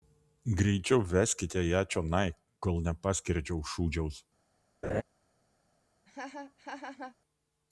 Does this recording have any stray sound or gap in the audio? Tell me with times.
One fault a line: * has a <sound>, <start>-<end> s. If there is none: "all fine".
* has a laugh, 4.8-5.0 s
* has a laugh, 6.1-7.2 s